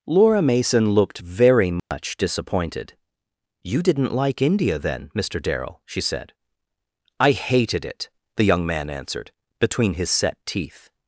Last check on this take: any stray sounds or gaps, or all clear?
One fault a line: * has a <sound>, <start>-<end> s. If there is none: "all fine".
* has a dropout, 1.8-1.9 s